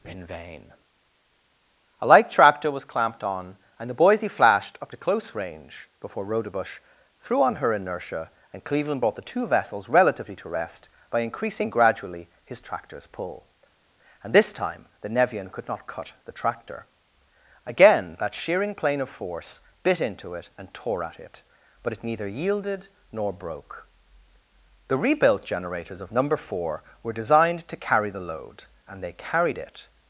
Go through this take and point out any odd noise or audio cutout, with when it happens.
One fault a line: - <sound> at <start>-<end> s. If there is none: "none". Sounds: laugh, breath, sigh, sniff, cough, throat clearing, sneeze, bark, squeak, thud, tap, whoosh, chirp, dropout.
none